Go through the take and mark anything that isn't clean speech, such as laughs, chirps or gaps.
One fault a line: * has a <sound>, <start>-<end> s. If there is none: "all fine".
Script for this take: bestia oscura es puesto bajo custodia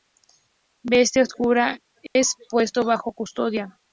* has a dropout, 2.1-2.2 s